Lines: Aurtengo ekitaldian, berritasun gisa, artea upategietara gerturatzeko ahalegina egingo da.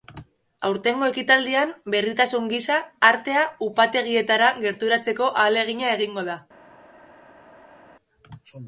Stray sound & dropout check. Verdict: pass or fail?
pass